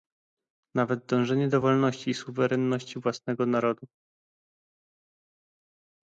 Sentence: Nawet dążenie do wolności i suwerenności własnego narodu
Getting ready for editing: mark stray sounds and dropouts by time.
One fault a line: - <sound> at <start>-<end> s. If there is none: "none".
none